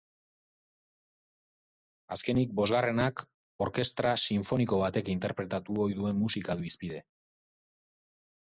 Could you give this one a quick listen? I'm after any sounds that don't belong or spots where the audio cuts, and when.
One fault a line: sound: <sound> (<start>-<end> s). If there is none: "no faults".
no faults